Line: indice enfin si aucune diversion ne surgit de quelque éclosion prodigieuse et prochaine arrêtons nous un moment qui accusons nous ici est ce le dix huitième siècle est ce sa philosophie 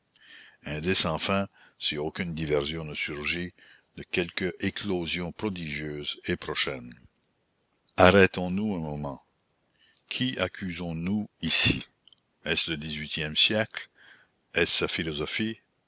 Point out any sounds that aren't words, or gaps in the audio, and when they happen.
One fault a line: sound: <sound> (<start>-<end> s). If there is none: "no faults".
no faults